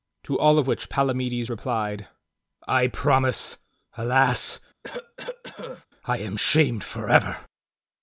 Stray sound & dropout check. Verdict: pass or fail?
fail